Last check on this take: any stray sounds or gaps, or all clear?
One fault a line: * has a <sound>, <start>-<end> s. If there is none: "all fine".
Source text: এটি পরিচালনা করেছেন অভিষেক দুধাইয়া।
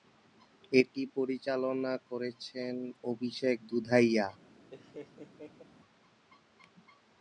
* has a laugh, 4.7-5.6 s